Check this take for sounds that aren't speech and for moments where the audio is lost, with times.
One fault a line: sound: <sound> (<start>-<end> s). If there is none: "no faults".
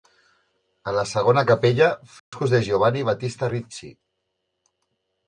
sound: dropout (2.2-2.3 s)